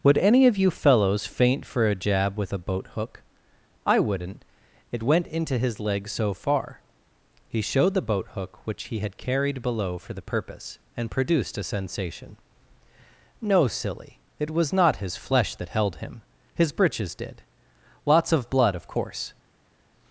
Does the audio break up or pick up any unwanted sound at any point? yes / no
no